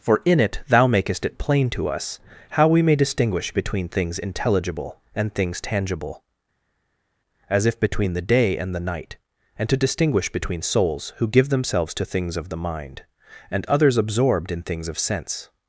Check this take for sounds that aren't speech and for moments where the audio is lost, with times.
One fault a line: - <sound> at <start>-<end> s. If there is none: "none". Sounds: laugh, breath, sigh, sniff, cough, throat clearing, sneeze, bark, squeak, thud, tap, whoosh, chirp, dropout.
none